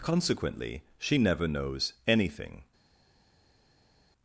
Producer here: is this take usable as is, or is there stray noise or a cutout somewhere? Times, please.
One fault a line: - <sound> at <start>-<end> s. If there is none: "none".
none